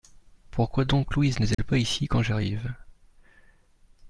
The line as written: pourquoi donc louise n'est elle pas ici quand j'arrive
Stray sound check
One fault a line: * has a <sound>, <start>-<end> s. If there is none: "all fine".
* has a dropout, 1.5-1.6 s